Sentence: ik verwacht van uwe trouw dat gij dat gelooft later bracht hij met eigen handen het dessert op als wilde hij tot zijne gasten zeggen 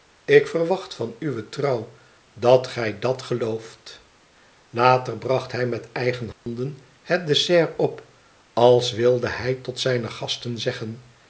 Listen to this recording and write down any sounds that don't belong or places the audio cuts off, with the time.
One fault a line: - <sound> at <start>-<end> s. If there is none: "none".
- dropout at 6.3-6.5 s